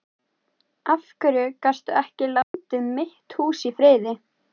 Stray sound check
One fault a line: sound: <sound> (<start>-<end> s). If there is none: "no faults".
sound: dropout (2.4-2.5 s)